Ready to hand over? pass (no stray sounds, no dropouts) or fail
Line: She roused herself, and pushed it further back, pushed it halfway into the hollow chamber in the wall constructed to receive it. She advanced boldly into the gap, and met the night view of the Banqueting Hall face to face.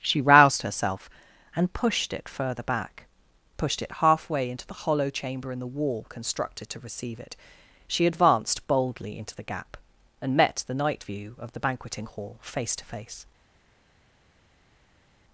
pass